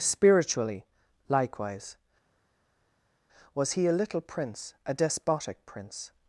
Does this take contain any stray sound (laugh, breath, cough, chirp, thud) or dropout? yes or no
no